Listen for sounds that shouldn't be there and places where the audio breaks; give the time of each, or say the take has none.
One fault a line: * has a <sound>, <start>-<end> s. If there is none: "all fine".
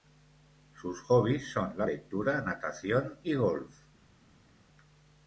all fine